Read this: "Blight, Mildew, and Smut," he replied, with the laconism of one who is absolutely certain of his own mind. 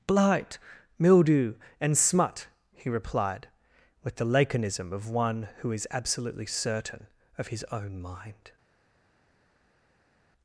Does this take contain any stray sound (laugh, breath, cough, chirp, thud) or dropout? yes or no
no